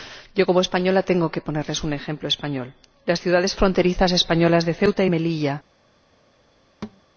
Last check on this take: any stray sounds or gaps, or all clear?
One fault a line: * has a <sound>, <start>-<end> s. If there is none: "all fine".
* has a thud, 6.8-7.0 s